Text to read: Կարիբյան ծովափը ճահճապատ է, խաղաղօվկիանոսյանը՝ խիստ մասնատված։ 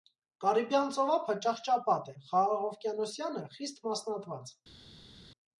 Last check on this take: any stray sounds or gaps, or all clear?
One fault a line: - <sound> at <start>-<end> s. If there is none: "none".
none